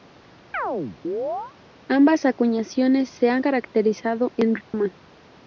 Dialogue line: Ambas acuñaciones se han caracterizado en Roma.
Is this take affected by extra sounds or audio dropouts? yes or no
yes